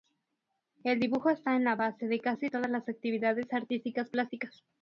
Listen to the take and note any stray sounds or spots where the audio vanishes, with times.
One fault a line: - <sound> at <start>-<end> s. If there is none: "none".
none